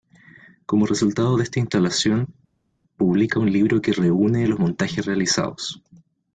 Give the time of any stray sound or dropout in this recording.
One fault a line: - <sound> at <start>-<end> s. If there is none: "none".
none